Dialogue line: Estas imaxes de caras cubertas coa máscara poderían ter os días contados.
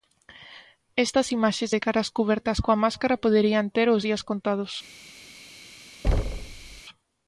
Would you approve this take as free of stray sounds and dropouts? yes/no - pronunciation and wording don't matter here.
no